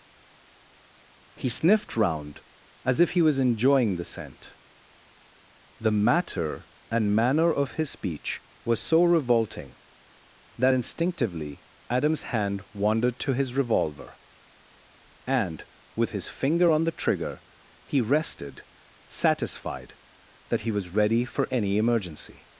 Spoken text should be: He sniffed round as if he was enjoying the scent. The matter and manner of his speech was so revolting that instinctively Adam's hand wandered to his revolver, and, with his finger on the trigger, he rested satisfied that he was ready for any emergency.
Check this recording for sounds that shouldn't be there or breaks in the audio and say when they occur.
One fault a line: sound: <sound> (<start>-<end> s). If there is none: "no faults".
no faults